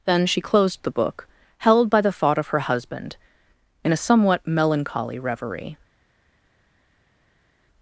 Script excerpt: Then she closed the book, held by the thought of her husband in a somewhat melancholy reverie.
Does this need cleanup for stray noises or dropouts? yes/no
no